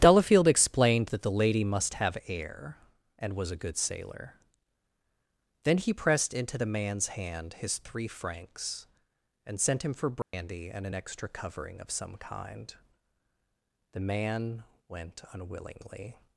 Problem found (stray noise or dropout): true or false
true